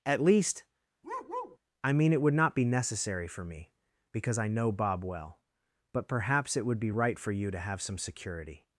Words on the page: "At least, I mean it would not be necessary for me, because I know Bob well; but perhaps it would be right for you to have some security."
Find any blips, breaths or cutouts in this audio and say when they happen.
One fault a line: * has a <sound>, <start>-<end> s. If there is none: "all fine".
* has a bark, 1.0-1.6 s